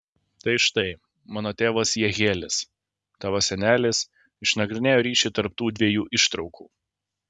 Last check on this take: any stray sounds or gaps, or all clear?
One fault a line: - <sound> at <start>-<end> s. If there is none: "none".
none